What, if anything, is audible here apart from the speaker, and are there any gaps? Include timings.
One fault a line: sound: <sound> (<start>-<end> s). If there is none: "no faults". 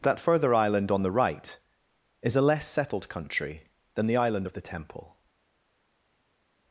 no faults